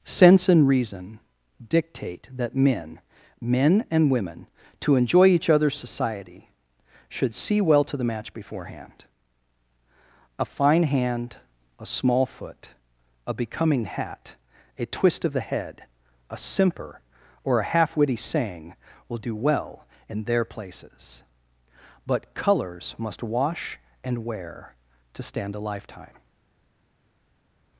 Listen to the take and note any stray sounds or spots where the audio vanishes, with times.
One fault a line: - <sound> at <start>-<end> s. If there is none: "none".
none